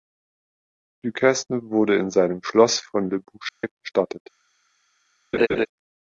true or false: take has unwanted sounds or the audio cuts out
true